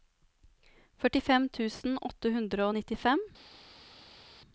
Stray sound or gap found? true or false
false